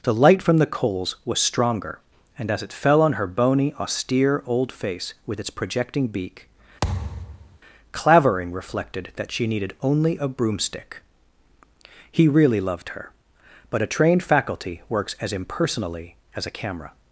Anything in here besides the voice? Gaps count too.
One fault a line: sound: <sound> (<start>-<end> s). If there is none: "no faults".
sound: thud (6.8-7.6 s)